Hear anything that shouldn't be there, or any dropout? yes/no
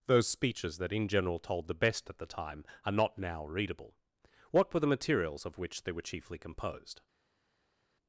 no